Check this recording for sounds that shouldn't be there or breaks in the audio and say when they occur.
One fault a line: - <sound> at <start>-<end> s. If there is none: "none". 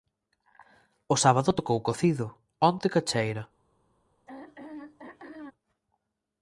- throat clearing at 4.3-5.5 s